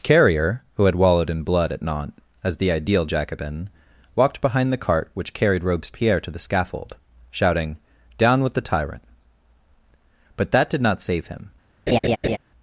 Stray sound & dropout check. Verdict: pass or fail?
fail